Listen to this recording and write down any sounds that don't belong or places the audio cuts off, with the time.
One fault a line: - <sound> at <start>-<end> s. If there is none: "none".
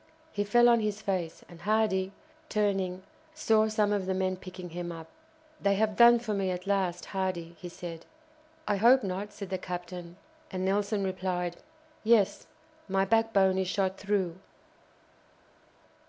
none